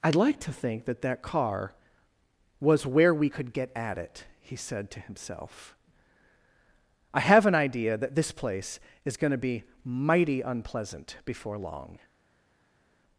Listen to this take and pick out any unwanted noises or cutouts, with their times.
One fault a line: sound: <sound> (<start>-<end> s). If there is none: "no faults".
no faults